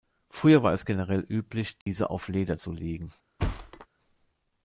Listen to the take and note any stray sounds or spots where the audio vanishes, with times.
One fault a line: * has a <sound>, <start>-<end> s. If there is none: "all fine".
* has a dropout, 1.8-1.9 s
* has a thud, 3.4-3.9 s